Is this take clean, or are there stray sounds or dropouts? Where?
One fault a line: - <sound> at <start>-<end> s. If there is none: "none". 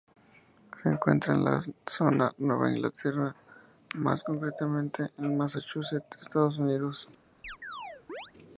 - chirp at 7.4-8.3 s